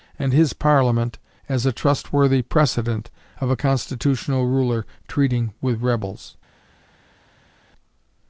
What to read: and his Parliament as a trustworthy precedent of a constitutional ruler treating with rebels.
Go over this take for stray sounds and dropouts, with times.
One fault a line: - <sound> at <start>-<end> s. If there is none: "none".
none